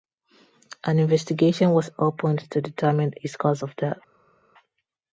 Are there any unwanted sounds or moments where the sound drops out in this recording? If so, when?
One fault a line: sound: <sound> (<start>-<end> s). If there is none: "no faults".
no faults